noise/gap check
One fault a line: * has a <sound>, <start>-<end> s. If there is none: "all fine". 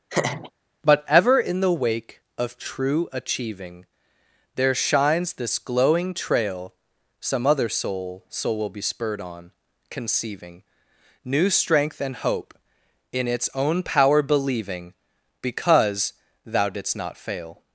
* has a laugh, 0.1-0.5 s